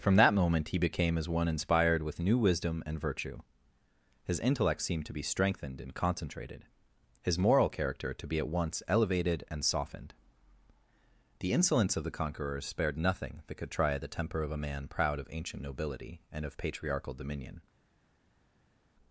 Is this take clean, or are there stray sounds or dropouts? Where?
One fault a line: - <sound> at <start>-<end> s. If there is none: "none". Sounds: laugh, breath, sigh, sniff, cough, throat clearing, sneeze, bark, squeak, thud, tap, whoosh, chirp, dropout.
none